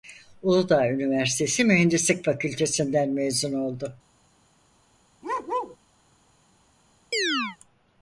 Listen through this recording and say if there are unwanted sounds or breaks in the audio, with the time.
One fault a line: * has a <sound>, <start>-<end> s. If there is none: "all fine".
* has a bark, 5.2-5.8 s
* has a chirp, 7.1-7.6 s